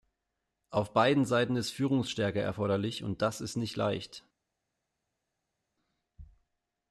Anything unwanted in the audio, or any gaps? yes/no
no